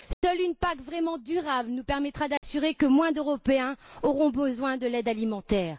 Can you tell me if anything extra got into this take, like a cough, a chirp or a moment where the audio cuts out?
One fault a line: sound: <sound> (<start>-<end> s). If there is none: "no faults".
sound: dropout (0.1-0.2 s)
sound: dropout (2.4-2.4 s)